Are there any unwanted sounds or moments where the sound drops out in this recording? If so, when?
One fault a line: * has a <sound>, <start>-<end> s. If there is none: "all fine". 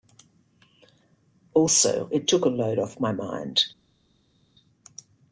all fine